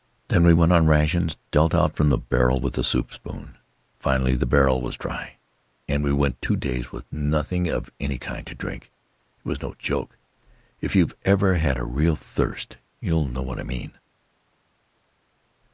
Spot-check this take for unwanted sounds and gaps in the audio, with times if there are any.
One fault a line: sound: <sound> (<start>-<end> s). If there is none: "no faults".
no faults